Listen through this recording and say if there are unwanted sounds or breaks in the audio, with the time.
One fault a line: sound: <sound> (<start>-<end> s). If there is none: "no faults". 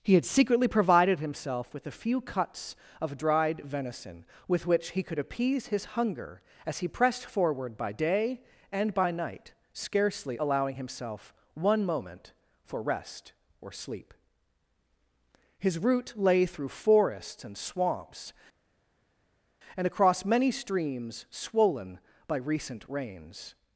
no faults